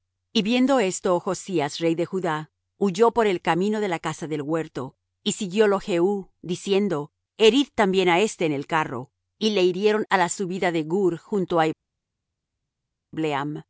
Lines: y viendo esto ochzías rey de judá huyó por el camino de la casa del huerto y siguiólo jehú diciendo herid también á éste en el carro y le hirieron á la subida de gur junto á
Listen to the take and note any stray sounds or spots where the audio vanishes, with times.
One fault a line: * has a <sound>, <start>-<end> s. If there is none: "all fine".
all fine